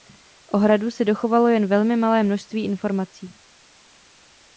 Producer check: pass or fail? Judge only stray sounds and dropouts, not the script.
pass